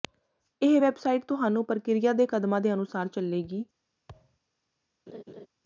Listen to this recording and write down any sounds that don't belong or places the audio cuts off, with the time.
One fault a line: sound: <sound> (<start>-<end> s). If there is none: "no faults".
sound: thud (4.1-4.4 s)
sound: laugh (5.1-5.5 s)